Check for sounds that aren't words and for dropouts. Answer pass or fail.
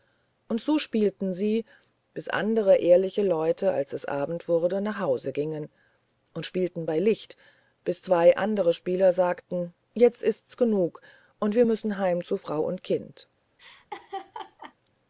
fail